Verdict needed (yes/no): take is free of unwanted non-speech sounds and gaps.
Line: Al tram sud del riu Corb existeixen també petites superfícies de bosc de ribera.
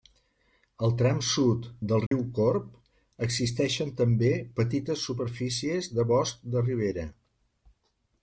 no